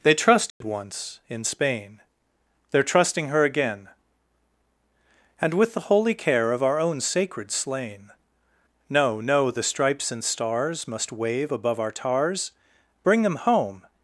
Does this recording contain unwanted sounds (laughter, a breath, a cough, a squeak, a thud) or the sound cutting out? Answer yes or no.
yes